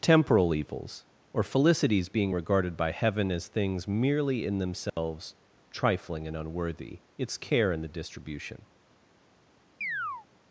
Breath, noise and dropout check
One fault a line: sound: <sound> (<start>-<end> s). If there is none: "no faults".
sound: dropout (4.9-5.0 s)
sound: chirp (9.8-10.3 s)